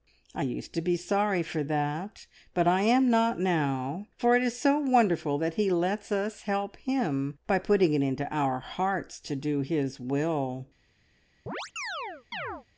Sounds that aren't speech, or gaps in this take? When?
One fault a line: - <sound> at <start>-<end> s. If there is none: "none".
- chirp at 11.5-12.7 s